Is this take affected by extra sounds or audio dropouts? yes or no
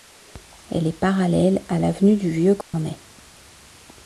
yes